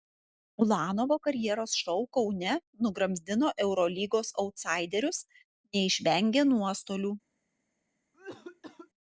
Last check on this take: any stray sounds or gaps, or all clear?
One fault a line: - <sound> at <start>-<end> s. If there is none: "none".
- cough at 8.1-8.9 s